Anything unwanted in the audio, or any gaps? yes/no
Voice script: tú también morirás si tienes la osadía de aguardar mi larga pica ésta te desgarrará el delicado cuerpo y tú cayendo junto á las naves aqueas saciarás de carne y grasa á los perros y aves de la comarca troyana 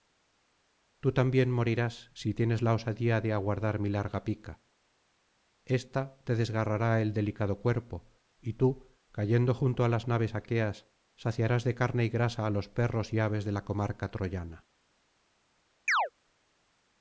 yes